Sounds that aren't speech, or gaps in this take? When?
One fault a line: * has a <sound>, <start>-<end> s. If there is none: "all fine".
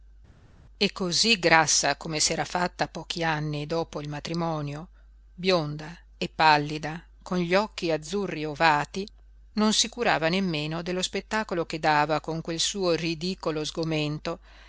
all fine